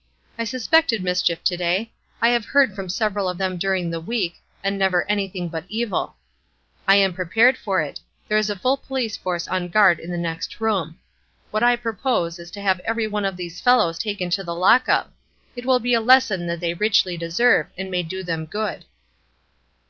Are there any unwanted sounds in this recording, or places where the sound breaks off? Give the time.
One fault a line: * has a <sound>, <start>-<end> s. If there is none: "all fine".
all fine